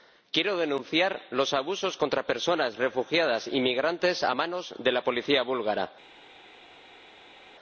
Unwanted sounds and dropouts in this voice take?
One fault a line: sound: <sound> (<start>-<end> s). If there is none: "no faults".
no faults